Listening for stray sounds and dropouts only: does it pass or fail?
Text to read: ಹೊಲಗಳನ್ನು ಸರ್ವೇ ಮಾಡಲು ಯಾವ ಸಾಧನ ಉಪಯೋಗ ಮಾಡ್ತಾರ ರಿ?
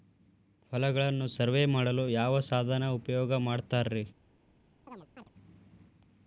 fail